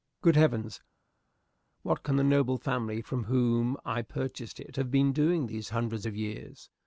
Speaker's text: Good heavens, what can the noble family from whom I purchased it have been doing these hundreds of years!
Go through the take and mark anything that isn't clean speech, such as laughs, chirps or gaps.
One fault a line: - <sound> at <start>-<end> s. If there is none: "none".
none